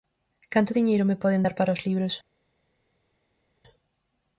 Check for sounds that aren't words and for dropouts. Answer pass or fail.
pass